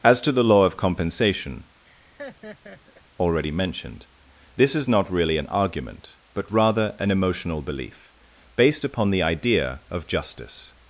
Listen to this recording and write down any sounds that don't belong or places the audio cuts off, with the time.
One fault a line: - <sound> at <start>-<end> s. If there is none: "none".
- laugh at 1.8-3.0 s